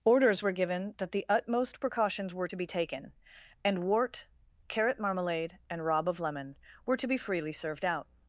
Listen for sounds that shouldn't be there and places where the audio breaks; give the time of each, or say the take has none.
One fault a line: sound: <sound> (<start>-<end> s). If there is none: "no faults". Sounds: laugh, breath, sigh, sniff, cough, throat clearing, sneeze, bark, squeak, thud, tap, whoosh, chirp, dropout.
no faults